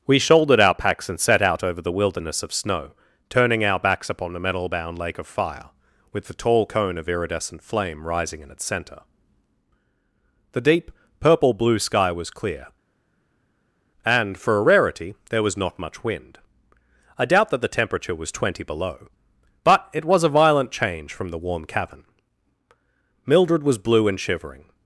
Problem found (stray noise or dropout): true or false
false